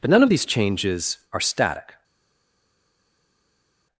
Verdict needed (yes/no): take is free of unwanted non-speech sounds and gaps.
yes